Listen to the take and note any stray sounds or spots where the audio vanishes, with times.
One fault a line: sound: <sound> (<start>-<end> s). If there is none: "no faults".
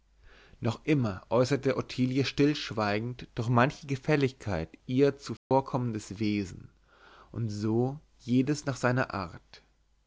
sound: dropout (5.4-5.5 s)